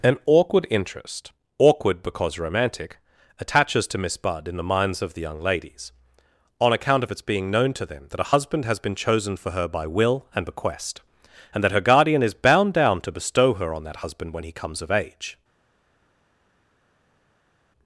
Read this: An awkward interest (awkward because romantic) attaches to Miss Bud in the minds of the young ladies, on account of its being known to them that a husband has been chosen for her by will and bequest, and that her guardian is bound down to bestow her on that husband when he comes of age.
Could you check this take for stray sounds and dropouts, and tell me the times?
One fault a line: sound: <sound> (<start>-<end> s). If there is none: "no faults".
no faults